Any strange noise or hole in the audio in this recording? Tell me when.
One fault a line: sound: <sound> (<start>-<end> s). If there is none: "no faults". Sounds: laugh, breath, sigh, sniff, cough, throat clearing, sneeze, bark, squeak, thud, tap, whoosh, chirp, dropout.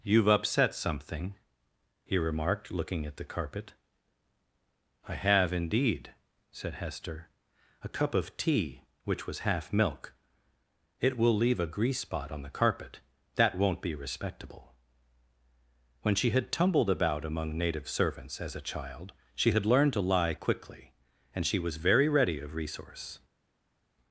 no faults